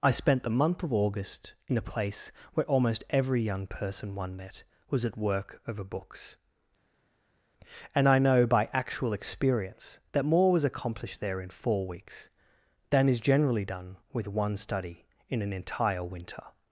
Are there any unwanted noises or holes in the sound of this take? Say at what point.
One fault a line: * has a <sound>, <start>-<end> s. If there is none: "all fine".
all fine